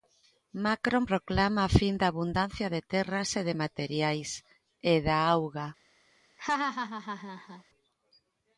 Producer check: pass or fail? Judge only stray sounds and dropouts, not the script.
fail